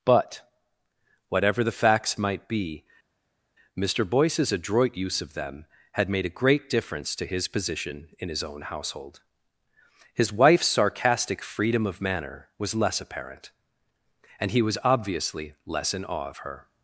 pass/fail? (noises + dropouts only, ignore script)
pass